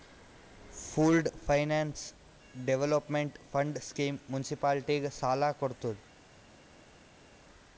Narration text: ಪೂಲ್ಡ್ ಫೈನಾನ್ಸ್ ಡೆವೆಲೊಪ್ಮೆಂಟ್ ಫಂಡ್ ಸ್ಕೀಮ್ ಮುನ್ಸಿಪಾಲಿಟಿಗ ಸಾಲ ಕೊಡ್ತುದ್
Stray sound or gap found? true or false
false